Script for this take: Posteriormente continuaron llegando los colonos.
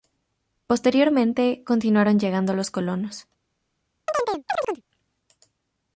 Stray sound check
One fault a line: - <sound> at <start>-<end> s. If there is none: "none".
- chirp at 4.1-4.8 s